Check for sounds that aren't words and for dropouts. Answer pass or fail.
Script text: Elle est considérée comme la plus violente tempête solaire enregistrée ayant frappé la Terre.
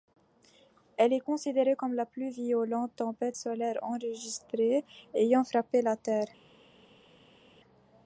pass